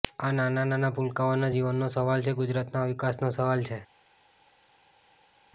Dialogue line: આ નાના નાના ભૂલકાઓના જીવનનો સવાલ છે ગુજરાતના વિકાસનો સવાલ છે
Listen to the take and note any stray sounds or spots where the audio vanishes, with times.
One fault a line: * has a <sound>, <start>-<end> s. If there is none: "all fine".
all fine